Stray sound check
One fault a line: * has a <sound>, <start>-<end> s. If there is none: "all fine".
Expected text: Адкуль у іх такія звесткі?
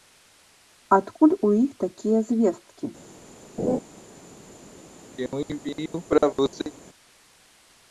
* has a laugh, 3.6-3.8 s
* has a throat clearing, 5.2-6.7 s